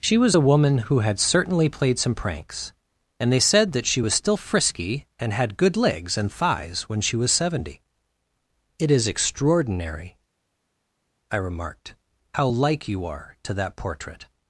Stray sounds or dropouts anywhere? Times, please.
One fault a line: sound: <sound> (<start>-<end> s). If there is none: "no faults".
no faults